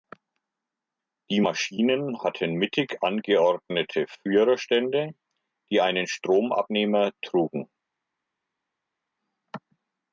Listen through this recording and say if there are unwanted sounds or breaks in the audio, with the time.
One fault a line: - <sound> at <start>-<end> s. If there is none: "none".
none